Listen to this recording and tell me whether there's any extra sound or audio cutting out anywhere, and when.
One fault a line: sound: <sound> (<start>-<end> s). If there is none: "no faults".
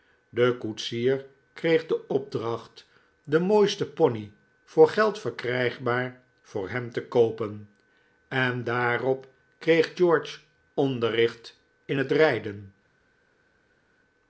no faults